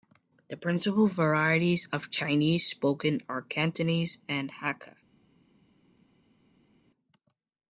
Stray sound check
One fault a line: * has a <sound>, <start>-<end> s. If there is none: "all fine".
all fine